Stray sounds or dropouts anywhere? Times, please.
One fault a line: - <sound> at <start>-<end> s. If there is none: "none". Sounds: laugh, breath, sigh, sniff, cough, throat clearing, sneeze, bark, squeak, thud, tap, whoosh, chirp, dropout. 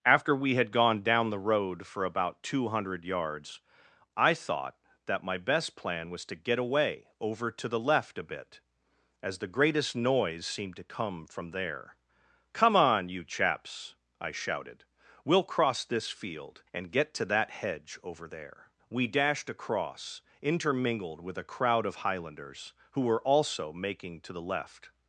none